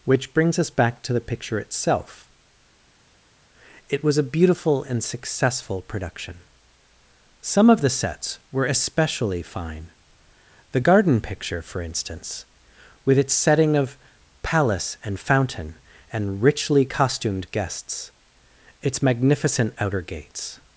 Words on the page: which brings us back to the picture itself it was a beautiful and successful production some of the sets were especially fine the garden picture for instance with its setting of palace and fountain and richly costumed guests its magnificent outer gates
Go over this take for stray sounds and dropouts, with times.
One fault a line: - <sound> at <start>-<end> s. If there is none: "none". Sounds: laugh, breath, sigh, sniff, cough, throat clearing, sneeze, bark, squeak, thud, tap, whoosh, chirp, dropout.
none